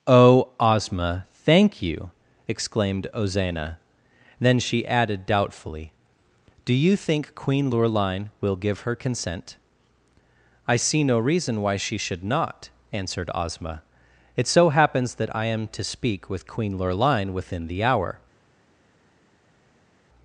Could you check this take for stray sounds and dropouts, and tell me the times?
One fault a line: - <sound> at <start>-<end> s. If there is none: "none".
none